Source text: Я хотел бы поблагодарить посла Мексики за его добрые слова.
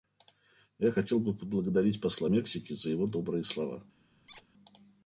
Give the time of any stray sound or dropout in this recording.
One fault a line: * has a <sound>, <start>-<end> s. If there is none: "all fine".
* has a squeak, 4.3-4.5 s